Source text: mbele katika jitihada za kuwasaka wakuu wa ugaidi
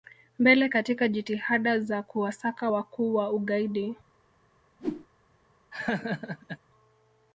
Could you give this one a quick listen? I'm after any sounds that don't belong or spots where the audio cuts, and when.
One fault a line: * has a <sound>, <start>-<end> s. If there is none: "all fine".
* has a whoosh, 4.8-5.1 s
* has a laugh, 5.7-6.6 s